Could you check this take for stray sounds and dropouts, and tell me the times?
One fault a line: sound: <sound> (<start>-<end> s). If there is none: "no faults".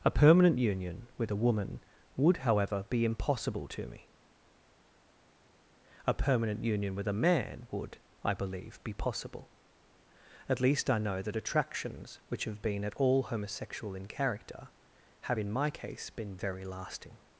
no faults